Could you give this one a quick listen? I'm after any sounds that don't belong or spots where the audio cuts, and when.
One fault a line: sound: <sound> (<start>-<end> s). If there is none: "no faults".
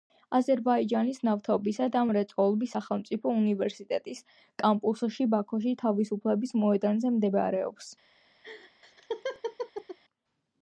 sound: laugh (8.4-10.0 s)